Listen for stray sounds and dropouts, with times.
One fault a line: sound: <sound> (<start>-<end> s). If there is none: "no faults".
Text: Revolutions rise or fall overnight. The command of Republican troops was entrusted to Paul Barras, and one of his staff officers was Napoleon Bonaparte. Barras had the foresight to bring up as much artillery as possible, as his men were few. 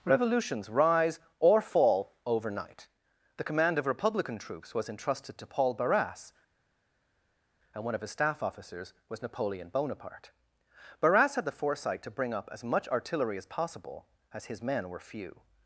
no faults